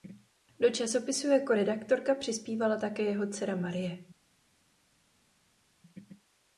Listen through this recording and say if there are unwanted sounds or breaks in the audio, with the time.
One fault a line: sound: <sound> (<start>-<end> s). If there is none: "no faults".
no faults